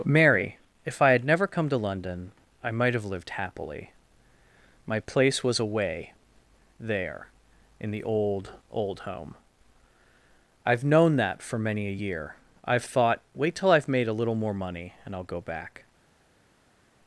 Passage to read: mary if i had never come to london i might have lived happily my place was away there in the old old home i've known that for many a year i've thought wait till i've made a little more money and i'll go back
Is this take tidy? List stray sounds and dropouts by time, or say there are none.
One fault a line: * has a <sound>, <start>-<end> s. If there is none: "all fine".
all fine